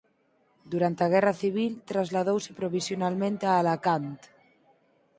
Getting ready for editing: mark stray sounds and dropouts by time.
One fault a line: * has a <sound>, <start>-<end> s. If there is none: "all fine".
all fine